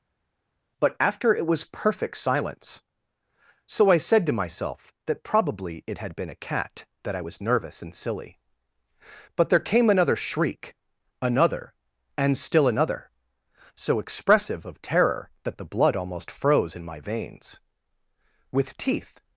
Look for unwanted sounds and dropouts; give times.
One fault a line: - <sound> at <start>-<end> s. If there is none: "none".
none